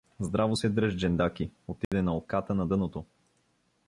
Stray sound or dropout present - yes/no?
yes